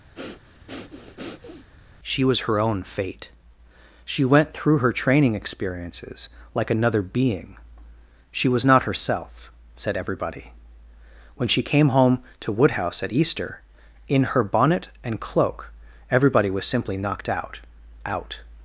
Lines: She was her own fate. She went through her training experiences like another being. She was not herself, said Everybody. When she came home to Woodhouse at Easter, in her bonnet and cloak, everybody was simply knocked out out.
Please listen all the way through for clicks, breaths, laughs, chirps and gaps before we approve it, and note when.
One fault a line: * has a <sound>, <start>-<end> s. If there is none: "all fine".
* has a breath, 0.1-1.7 s